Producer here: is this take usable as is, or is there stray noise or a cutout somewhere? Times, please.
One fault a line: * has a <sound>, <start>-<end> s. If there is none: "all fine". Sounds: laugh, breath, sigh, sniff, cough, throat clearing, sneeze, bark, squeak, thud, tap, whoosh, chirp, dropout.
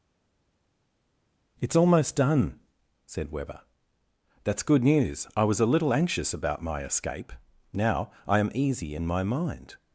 all fine